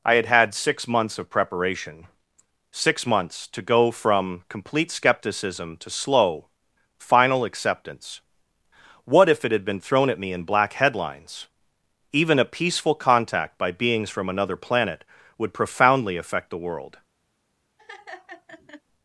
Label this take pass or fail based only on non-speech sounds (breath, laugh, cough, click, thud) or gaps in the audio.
fail